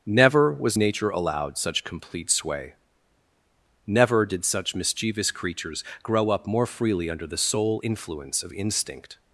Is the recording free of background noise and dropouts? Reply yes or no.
yes